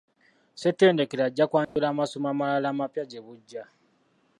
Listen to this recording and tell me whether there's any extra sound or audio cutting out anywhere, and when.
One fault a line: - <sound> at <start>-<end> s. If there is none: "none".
- dropout at 1.6-1.8 s